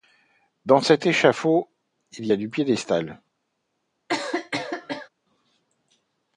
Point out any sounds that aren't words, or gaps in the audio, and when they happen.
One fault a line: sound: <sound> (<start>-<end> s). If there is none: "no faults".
sound: cough (4.1-5.1 s)